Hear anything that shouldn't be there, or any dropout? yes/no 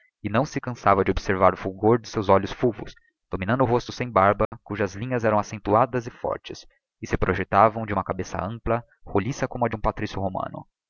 yes